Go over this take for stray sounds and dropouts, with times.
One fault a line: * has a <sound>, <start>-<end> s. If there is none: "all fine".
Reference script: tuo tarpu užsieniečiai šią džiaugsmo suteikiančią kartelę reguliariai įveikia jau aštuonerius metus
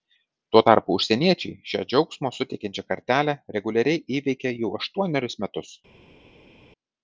all fine